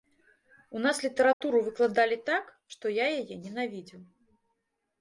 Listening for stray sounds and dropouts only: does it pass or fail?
fail